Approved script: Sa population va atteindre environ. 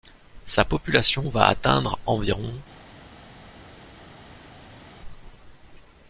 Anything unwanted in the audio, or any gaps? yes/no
no